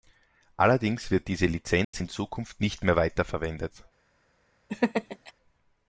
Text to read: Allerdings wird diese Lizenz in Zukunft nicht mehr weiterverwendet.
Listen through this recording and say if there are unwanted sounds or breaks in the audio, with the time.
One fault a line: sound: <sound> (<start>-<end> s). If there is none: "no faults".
sound: dropout (1.8-1.9 s)
sound: laugh (4.7-5.3 s)